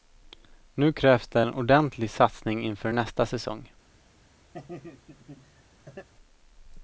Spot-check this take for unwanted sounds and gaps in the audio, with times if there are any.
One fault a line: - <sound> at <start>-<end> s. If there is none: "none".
- laugh at 4.5-6.1 s